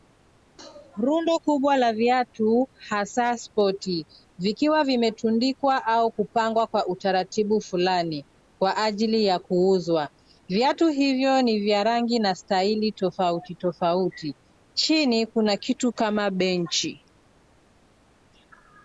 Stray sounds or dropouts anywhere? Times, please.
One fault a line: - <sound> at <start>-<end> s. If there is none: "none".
none